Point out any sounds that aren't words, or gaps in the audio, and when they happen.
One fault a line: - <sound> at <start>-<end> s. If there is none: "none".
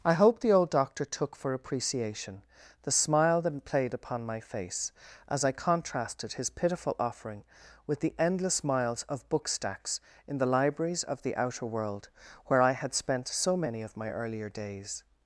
none